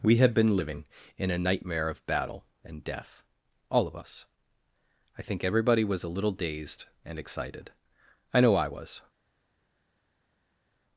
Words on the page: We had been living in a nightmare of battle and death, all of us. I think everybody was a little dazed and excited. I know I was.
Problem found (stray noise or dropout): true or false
false